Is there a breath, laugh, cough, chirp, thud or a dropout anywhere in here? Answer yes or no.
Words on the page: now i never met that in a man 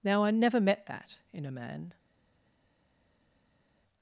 no